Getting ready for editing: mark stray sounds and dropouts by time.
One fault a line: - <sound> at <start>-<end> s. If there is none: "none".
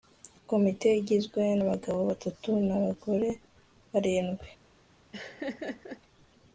- laugh at 5.1-6.0 s